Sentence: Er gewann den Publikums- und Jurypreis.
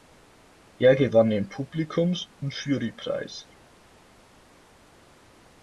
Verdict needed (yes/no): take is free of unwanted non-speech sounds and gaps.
yes